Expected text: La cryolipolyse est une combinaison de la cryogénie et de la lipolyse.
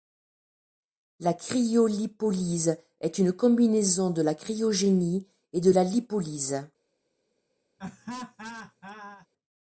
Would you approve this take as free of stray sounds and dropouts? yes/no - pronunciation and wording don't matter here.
no